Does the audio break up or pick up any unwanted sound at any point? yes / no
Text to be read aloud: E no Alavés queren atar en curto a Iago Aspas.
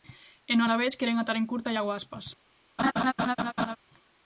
yes